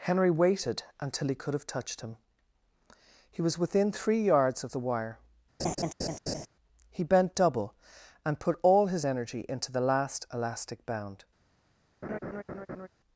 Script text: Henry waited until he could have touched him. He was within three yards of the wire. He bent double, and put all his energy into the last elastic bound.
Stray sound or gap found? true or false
true